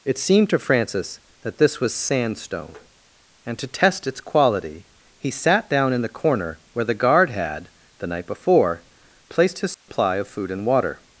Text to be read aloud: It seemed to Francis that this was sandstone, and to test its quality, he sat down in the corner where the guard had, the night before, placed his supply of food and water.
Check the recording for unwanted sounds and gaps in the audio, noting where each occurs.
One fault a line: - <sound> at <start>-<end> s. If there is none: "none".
- dropout at 9.7-9.9 s